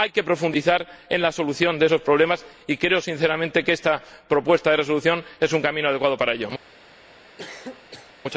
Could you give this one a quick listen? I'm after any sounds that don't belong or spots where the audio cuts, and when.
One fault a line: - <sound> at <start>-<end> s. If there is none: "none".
- cough at 7.4-8.1 s